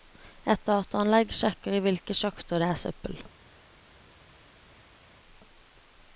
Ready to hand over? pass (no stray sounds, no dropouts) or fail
pass